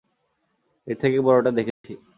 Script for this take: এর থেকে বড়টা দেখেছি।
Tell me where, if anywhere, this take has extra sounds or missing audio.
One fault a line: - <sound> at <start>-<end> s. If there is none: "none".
- dropout at 1.7-1.8 s